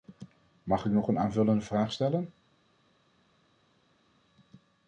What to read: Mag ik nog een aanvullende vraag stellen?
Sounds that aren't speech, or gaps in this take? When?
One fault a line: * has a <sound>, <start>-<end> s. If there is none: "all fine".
all fine